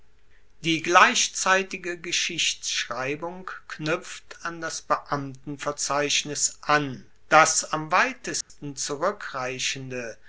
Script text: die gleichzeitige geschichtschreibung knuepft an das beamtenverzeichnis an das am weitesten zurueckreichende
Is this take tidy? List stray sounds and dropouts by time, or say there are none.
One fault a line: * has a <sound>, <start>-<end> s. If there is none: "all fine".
* has a dropout, 8.4-8.5 s